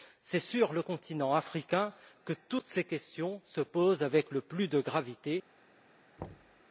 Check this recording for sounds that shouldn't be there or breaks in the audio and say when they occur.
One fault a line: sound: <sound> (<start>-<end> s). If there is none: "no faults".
sound: thud (6.2-6.6 s)